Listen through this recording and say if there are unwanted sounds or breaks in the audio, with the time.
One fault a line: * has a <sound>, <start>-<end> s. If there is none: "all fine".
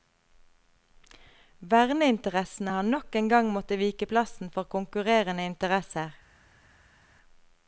all fine